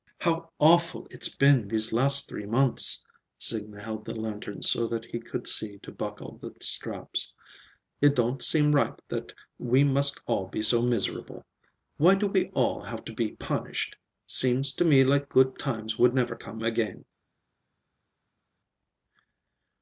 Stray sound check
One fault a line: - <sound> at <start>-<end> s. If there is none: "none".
none